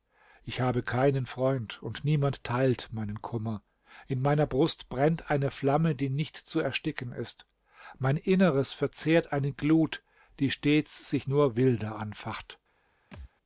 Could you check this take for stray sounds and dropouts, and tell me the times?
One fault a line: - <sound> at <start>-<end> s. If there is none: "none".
- thud at 13.1-13.3 s